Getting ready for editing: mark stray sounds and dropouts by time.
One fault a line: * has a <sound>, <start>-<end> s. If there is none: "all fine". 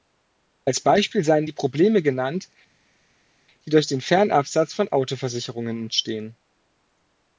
all fine